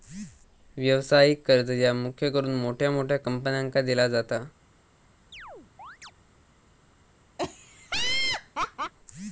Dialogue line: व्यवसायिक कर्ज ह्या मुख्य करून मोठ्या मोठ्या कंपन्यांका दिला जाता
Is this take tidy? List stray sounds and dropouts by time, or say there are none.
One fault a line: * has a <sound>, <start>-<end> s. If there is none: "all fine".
* has a chirp, 5.3-6.1 s
* has a laugh, 7.4-8.9 s